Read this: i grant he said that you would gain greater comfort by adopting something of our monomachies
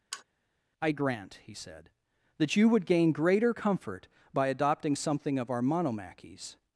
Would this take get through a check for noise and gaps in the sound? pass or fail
fail